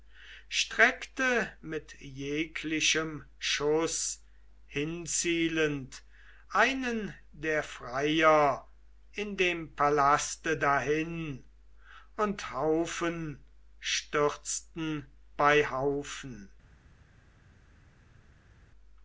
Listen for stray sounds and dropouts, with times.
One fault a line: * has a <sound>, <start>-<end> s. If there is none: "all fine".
all fine